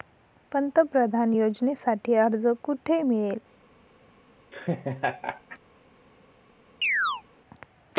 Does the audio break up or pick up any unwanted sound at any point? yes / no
yes